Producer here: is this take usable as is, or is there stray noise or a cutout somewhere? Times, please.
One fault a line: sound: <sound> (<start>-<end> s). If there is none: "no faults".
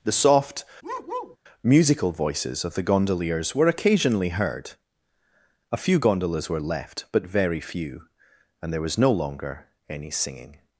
sound: bark (0.8-1.4 s)